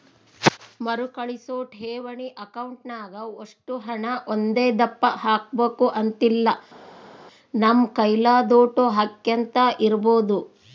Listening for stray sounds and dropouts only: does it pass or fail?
pass